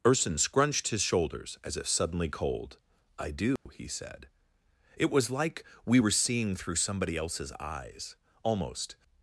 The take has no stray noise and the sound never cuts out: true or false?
false